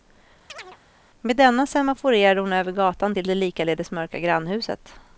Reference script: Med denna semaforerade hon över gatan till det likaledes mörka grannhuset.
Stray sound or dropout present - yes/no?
yes